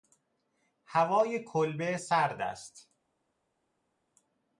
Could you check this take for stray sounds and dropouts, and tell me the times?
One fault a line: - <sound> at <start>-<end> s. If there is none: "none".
none